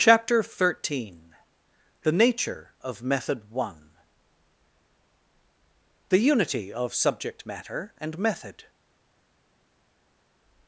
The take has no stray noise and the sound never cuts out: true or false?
true